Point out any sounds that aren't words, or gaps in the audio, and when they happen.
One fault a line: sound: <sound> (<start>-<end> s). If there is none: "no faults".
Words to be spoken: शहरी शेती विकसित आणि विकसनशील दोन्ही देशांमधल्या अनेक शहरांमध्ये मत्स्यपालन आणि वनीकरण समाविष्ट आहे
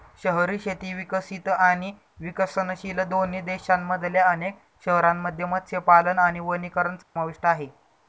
sound: dropout (7.0-7.2 s)